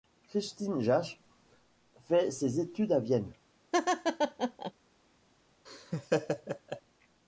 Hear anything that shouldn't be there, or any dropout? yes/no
yes